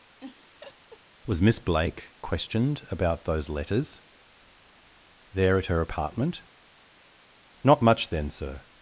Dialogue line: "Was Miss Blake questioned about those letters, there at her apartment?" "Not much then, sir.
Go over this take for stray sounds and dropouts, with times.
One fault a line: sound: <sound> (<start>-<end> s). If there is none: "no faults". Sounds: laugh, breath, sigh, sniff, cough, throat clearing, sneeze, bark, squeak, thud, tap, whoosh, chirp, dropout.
sound: laugh (0.2-1.0 s)